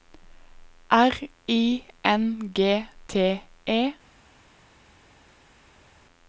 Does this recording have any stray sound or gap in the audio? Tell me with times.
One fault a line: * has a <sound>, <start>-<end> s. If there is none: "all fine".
all fine